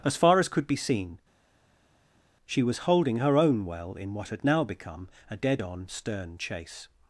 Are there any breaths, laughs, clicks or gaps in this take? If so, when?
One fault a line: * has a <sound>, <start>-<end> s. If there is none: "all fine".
all fine